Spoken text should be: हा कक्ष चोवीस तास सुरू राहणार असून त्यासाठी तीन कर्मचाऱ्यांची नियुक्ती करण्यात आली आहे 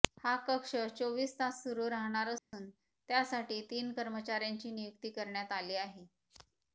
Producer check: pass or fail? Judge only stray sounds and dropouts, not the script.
fail